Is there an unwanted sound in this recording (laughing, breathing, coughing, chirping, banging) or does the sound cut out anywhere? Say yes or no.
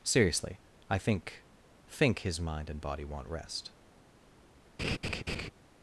yes